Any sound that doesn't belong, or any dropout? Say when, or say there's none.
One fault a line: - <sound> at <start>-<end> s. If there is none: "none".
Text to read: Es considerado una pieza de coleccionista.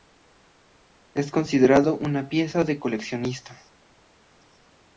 none